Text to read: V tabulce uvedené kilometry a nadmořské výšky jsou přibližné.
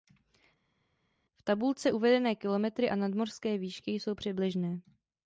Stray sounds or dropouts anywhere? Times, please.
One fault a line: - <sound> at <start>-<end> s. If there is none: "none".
none